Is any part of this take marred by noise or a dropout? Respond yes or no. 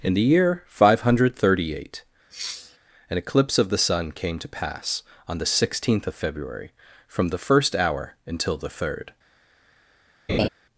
yes